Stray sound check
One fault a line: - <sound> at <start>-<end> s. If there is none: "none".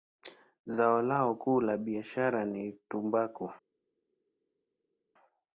none